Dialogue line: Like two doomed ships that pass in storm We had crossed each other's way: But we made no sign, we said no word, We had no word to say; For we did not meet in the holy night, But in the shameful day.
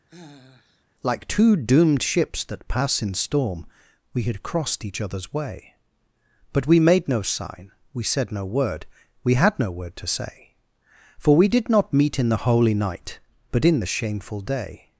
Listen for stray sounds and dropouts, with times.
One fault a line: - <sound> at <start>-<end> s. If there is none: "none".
- sigh at 0.1-0.8 s